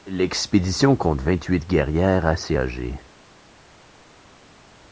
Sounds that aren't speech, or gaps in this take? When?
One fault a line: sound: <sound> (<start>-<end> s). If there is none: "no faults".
no faults